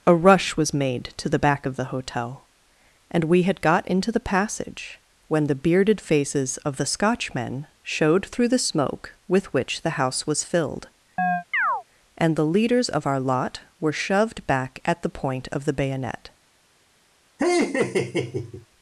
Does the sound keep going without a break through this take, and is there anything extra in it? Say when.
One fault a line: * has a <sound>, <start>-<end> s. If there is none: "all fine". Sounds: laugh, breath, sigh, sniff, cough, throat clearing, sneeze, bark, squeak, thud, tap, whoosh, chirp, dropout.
* has a chirp, 11.2-11.8 s
* has a laugh, 17.4-18.7 s